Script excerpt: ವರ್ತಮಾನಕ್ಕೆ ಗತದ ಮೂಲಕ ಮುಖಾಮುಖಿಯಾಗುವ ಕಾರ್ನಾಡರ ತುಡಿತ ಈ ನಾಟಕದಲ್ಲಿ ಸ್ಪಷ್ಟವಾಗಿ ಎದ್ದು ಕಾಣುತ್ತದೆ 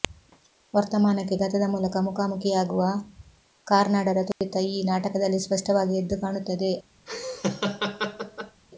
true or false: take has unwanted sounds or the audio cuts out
true